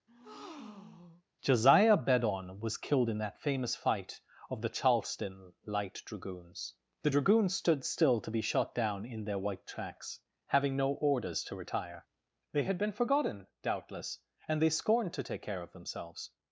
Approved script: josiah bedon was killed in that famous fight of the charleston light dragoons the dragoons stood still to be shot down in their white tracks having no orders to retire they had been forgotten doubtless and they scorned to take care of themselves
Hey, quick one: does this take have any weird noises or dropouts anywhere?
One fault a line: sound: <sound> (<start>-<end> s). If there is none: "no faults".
sound: breath (0.1-1.2 s)